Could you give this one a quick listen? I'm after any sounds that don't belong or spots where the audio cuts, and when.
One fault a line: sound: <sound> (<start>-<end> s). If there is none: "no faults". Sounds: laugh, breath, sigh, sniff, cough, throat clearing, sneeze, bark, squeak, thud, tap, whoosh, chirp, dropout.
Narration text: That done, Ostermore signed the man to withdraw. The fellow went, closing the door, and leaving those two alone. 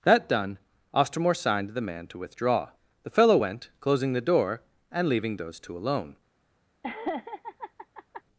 sound: laugh (6.8-8.2 s)